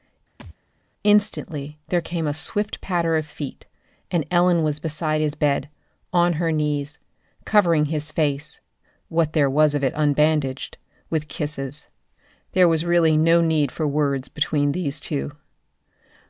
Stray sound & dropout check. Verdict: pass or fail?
fail